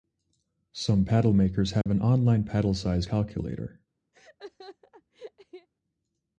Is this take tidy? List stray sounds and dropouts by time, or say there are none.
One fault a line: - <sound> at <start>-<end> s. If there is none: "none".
- dropout at 1.8-1.9 s
- laugh at 4.1-5.7 s